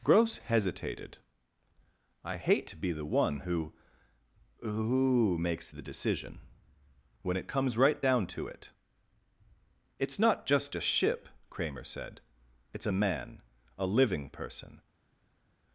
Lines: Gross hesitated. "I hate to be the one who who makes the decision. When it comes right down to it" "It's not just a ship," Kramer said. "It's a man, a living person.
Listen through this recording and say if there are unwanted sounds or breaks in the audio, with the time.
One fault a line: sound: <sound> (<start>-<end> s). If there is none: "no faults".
no faults